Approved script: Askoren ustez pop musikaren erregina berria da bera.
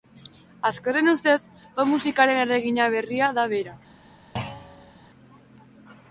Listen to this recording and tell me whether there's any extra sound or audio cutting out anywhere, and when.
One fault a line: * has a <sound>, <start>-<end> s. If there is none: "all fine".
* has a thud, 4.4-4.9 s